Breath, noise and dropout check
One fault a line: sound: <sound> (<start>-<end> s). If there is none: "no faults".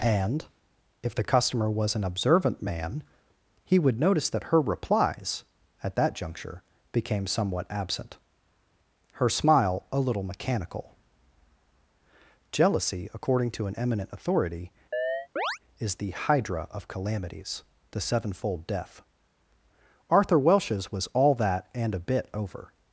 sound: chirp (14.9-15.6 s)